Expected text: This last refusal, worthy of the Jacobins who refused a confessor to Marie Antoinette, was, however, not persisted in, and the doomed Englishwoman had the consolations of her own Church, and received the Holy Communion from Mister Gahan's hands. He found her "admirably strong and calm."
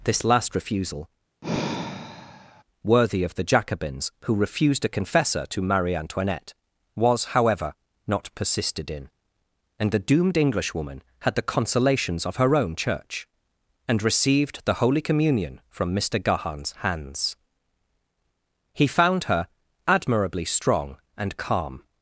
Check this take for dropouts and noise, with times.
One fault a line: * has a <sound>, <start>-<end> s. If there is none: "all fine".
* has a sigh, 1.4-2.6 s